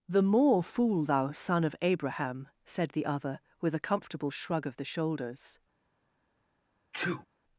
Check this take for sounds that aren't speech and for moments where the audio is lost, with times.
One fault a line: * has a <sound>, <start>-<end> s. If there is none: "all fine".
* has a sneeze, 6.9-7.3 s